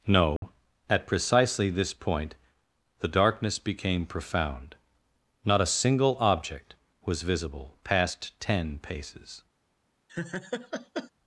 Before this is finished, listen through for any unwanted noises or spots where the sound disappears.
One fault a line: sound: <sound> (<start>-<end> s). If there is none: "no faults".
sound: dropout (0.4-0.4 s)
sound: laugh (10.1-11.1 s)